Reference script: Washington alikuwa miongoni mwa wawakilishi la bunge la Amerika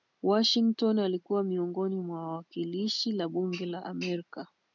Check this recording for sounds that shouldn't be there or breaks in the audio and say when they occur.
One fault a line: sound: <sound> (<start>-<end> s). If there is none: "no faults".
no faults